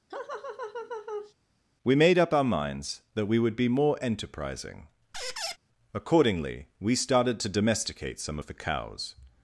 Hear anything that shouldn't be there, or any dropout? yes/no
yes